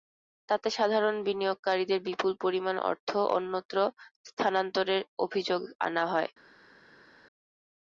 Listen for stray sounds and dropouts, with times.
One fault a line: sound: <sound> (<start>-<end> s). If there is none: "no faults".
no faults